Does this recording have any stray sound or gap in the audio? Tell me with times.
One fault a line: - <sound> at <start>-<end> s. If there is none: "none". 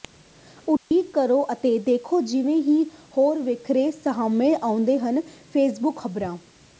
- dropout at 0.8-0.9 s